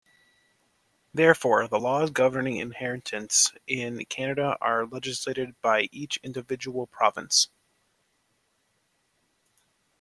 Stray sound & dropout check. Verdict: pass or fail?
pass